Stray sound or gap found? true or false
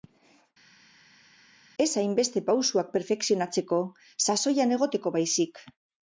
false